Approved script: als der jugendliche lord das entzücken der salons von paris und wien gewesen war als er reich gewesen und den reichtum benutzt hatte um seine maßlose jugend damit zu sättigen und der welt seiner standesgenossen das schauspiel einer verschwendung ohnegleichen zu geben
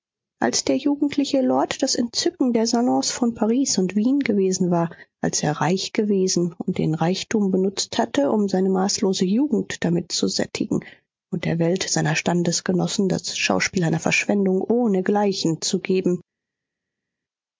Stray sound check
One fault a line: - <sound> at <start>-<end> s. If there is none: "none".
none